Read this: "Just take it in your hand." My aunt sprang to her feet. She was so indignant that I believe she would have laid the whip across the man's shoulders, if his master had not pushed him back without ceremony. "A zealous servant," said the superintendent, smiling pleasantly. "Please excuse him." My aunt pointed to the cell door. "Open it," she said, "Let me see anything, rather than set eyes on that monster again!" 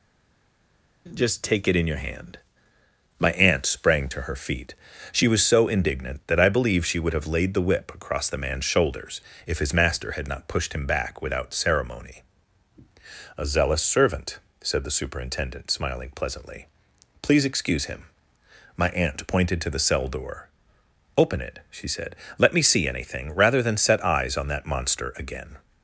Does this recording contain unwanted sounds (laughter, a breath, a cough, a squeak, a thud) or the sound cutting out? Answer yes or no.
no